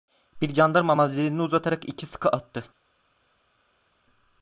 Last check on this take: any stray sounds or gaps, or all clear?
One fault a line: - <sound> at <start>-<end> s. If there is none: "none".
none